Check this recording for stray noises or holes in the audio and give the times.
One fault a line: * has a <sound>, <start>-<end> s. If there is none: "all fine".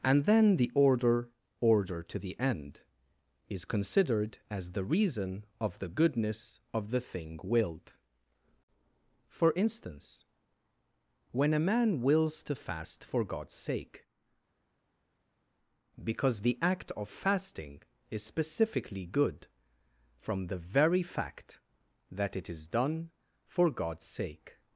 all fine